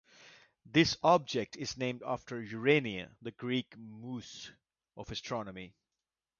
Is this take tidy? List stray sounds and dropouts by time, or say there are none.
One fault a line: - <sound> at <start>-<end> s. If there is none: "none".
none